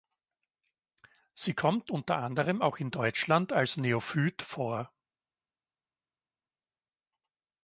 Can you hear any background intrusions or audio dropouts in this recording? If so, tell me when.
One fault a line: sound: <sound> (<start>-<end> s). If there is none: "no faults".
no faults